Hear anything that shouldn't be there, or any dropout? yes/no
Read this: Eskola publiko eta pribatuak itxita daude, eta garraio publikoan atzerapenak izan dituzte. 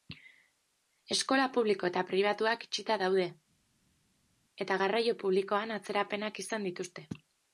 no